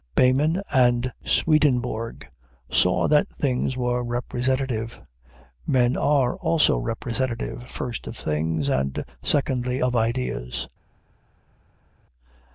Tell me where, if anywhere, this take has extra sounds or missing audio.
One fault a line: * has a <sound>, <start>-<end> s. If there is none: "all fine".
all fine